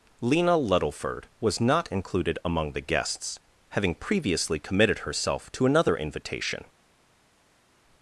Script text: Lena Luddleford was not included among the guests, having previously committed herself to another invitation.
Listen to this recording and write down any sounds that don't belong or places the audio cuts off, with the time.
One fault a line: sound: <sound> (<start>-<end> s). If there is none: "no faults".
no faults